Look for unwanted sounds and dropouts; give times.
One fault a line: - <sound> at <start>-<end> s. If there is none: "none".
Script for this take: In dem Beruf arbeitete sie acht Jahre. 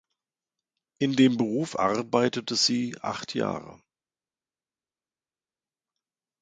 none